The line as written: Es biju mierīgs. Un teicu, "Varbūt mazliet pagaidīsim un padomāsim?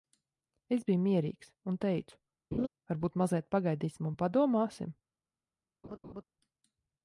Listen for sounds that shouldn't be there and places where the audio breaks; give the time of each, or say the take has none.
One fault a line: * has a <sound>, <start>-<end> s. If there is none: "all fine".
* has a laugh, 2.5-2.7 s
* has a laugh, 5.8-6.2 s